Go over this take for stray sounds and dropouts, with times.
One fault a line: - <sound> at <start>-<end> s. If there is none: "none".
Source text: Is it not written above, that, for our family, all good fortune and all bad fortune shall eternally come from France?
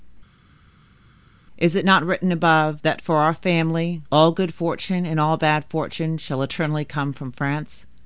none